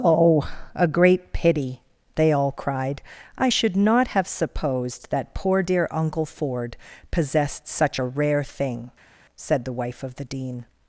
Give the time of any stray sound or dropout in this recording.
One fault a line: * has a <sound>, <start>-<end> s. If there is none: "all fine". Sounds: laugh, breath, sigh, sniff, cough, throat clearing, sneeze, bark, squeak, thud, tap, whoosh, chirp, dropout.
all fine